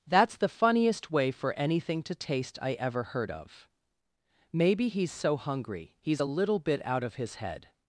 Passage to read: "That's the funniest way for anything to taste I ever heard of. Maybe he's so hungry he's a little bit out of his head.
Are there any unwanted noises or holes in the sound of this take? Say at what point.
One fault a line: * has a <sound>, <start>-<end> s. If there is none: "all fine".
all fine